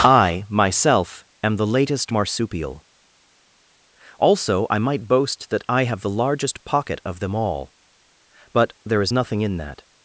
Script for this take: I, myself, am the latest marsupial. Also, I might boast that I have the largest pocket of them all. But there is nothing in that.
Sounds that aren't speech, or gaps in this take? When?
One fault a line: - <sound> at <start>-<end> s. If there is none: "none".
none